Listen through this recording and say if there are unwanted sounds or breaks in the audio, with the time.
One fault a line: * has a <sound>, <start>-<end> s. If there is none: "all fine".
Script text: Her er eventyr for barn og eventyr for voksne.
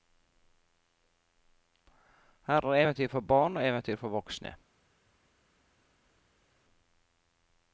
all fine